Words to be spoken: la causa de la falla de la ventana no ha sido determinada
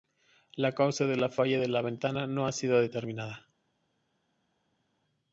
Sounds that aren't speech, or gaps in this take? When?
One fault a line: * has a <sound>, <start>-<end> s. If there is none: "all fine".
all fine